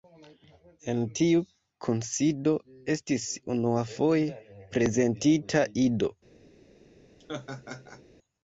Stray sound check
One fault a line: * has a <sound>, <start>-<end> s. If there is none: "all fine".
* has a laugh, 7.2-8.0 s